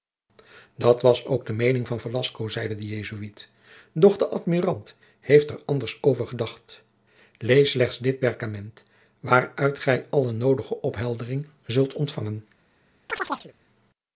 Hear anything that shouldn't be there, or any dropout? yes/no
yes